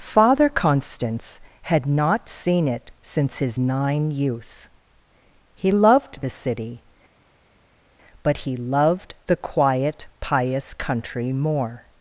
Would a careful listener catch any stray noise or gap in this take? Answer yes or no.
no